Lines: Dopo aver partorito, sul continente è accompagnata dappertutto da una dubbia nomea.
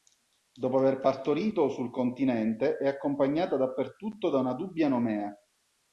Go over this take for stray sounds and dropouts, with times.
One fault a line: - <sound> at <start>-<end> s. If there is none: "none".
none